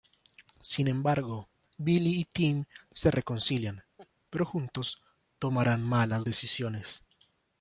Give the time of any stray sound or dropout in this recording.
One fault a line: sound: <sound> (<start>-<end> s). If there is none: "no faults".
sound: laugh (4.0-4.1 s)